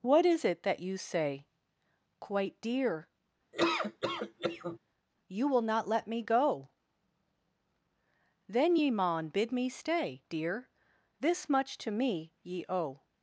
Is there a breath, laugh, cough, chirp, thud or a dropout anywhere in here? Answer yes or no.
yes